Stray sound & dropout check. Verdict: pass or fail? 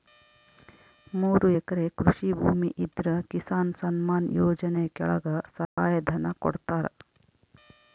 fail